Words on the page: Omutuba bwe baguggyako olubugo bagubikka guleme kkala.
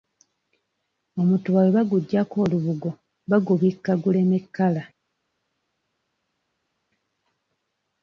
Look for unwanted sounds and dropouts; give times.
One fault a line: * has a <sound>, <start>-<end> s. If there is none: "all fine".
all fine